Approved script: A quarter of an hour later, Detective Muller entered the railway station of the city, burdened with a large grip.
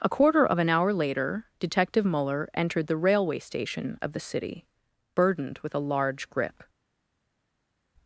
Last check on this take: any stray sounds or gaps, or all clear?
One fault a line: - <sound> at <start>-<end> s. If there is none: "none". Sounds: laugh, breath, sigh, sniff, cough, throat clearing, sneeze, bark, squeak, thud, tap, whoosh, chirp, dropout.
none